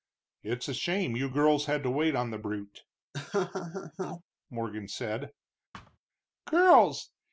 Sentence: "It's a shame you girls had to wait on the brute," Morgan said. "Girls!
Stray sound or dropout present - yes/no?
yes